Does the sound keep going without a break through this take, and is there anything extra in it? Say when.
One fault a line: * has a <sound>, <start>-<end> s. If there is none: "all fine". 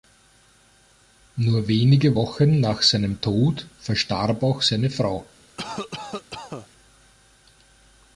* has a cough, 5.6-6.7 s